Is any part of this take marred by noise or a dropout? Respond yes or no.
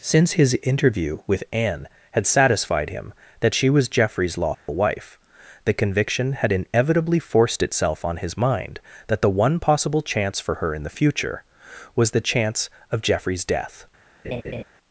yes